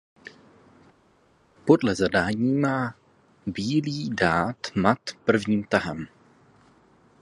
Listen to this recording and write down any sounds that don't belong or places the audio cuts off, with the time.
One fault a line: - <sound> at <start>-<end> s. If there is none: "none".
none